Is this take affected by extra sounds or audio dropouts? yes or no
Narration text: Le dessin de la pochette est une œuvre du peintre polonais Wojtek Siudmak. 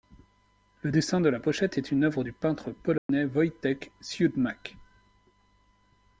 yes